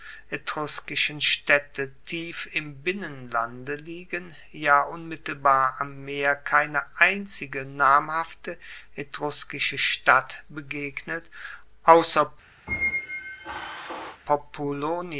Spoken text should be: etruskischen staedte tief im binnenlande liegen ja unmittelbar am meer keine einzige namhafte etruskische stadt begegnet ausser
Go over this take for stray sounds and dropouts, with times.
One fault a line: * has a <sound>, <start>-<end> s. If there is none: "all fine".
* has a squeak, 12.7-14.2 s